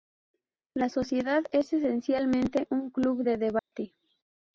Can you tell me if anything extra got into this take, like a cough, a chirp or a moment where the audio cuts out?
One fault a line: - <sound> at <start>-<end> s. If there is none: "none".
- dropout at 3.6-3.7 s